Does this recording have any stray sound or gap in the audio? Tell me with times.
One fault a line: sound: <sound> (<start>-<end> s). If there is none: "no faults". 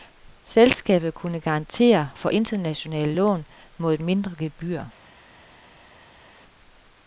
no faults